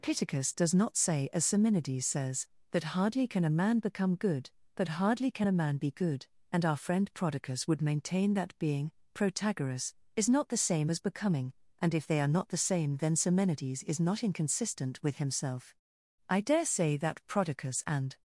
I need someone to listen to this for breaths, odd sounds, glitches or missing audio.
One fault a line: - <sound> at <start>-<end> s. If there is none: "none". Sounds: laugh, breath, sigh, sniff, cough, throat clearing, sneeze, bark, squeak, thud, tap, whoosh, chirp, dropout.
none